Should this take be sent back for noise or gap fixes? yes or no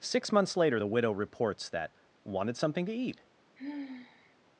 yes